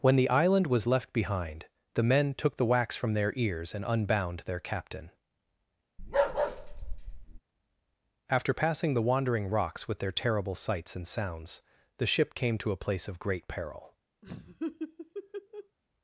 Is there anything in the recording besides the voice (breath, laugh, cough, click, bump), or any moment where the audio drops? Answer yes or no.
yes